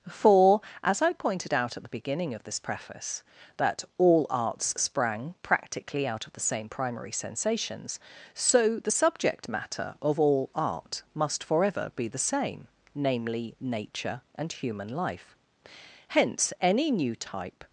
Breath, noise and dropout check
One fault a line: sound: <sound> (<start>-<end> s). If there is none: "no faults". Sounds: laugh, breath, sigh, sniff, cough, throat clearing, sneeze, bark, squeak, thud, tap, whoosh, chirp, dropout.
no faults